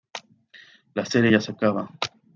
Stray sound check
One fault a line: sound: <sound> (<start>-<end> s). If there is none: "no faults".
no faults